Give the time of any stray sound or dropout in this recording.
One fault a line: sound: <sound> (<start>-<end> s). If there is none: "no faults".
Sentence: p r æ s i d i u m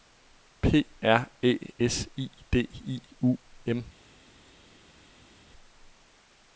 no faults